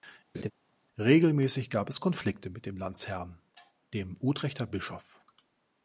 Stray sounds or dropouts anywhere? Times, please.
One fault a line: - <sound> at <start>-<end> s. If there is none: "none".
- laugh at 0.3-0.5 s